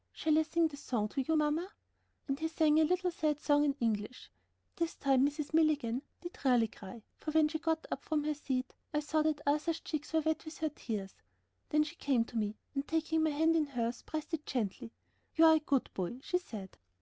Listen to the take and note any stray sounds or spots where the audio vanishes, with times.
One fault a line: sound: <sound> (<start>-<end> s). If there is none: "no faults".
no faults